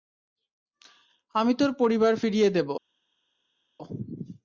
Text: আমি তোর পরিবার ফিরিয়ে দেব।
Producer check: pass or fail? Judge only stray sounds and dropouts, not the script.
pass